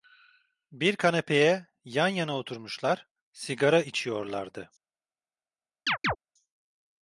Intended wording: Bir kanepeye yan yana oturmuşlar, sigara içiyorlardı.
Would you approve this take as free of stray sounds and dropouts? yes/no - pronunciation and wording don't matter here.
no